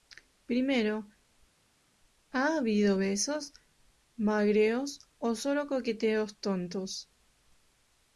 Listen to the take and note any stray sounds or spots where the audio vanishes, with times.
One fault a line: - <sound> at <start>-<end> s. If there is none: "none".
none